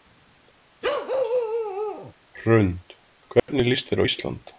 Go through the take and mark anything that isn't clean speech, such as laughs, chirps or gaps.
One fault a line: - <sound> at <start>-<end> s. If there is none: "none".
- bark at 0.8-2.1 s
- dropout at 3.4-3.5 s